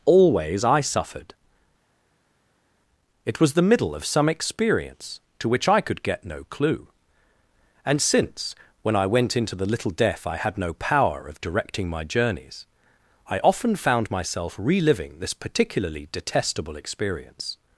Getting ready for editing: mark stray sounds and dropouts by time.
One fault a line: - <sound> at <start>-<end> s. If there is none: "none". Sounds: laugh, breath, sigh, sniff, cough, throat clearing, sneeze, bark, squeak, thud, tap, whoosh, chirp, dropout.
none